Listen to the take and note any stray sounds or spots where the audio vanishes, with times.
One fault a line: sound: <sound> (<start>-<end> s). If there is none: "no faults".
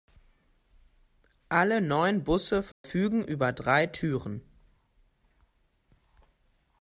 sound: dropout (2.7-2.8 s)